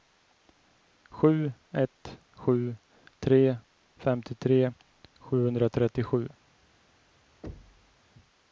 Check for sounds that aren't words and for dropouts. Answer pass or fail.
fail